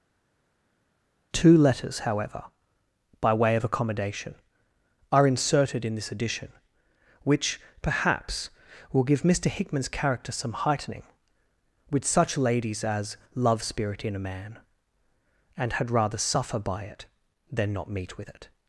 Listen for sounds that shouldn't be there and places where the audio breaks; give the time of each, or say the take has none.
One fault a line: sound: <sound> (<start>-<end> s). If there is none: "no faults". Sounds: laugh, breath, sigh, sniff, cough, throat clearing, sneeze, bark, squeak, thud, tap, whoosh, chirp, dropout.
no faults